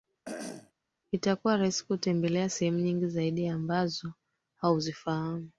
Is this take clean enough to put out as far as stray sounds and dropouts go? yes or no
no